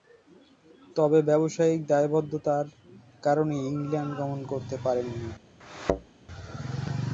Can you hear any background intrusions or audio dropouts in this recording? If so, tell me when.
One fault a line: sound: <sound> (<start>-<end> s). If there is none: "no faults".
sound: thud (5.6-6.1 s)